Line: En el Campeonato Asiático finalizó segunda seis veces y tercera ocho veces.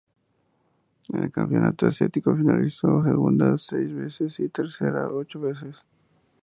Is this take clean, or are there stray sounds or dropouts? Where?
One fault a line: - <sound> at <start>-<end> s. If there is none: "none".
none